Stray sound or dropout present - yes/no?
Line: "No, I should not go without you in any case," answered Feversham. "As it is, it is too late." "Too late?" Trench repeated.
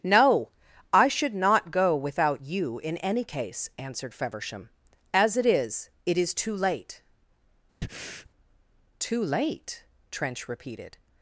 yes